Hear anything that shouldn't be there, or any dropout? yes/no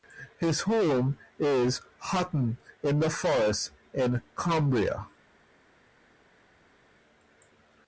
no